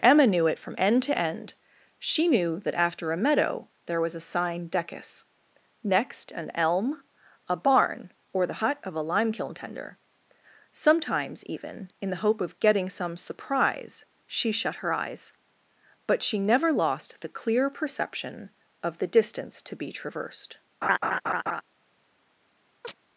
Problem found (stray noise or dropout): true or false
true